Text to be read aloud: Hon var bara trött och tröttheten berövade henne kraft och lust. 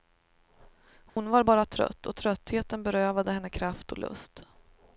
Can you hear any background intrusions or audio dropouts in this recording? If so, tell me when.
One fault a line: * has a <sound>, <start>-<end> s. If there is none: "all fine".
* has a dropout, 1.1-1.2 s